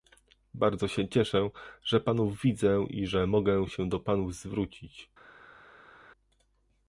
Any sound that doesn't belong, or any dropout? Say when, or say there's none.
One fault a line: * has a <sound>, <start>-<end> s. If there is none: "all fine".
all fine